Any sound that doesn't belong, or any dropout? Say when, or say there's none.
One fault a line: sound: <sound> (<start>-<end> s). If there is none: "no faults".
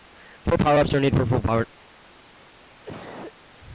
sound: cough (2.6-3.3 s)